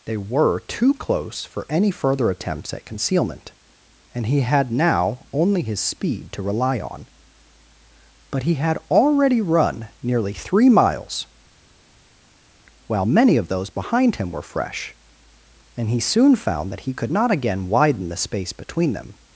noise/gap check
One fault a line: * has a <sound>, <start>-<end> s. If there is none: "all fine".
all fine